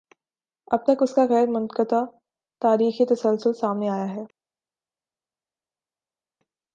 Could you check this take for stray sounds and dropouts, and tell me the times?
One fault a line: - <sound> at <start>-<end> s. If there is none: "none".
none